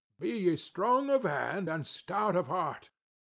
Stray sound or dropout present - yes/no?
no